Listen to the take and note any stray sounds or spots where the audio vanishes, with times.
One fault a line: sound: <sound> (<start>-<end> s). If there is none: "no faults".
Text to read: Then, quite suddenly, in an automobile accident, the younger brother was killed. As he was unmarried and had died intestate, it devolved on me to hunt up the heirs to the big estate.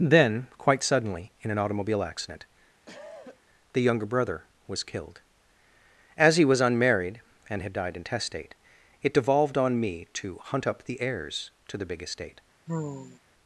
sound: cough (2.9-3.4 s)
sound: sigh (12.7-13.2 s)